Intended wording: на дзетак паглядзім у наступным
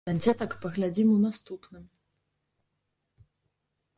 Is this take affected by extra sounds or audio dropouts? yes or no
no